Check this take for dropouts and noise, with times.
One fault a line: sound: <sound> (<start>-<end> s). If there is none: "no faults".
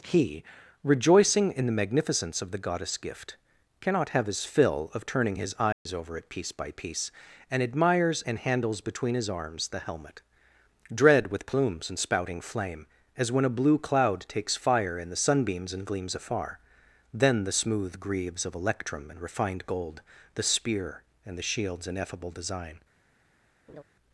sound: dropout (5.7-5.9 s)
sound: laugh (23.7-23.8 s)